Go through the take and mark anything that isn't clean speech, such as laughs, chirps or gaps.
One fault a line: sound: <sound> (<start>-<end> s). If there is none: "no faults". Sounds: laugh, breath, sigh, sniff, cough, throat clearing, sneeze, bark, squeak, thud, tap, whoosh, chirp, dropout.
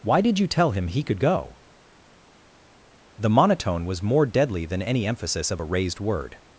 no faults